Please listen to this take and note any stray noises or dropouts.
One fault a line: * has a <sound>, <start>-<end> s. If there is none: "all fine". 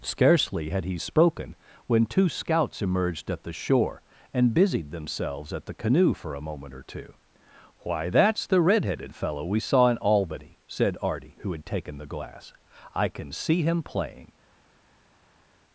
all fine